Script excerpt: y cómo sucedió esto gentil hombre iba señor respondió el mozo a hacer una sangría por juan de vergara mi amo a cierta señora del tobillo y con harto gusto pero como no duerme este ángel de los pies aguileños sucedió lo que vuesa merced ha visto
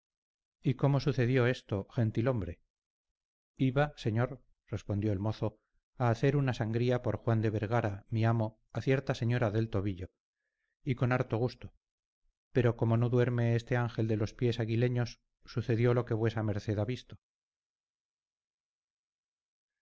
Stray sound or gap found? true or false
false